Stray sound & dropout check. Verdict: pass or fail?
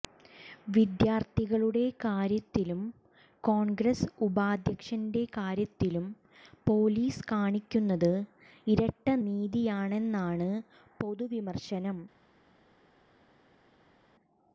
pass